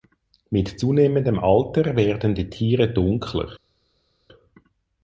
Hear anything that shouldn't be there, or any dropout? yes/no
no